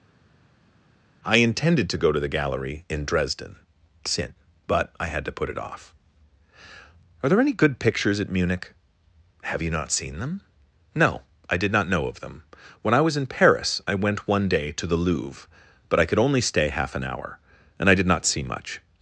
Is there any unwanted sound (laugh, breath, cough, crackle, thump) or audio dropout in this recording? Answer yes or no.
no